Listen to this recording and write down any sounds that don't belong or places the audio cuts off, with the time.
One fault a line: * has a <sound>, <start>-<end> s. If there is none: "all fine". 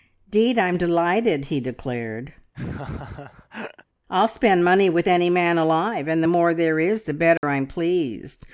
* has a laugh, 2.5-3.8 s
* has a dropout, 7.4-7.4 s